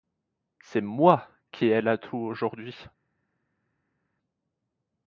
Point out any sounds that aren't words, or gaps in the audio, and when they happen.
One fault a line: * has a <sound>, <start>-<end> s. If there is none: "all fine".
all fine